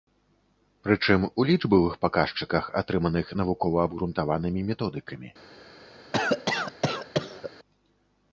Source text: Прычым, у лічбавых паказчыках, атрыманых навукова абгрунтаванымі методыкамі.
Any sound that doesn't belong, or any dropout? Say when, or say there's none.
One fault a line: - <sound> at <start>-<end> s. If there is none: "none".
- cough at 6.1-7.5 s